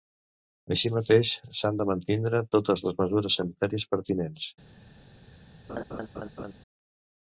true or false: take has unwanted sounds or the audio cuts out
true